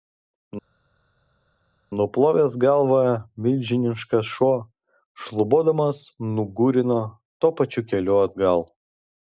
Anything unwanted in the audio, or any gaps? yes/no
no